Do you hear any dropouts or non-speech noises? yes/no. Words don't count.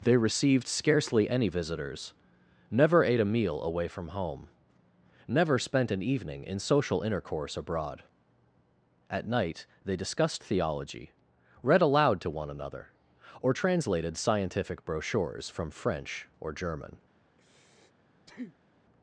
yes